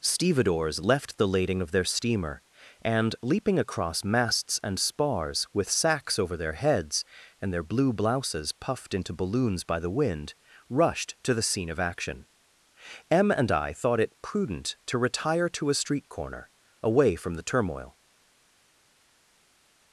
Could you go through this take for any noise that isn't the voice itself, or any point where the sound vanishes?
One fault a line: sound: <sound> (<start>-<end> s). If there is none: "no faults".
no faults